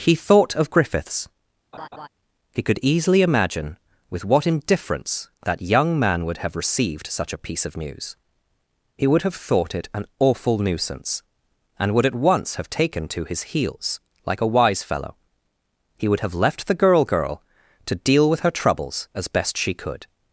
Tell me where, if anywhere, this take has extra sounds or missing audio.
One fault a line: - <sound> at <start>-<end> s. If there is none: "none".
- laugh at 1.7-2.1 s